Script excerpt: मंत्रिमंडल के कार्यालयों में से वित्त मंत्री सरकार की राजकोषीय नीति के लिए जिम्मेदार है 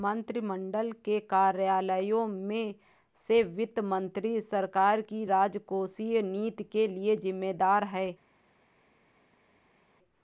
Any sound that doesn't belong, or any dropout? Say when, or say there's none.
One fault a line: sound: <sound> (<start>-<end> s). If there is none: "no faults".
no faults